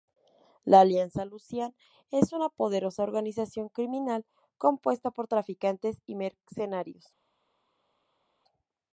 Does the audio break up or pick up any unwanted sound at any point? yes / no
no